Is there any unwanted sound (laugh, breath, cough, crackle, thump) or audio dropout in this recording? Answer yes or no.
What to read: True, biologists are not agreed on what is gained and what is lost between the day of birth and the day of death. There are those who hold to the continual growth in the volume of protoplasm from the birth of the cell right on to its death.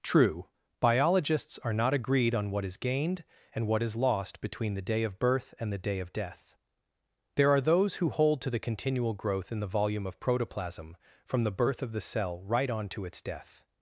no